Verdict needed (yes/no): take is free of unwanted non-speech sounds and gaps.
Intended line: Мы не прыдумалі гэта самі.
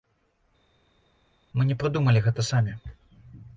yes